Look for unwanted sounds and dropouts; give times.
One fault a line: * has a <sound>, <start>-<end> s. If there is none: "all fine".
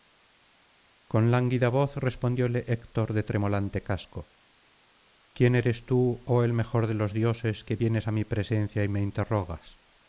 all fine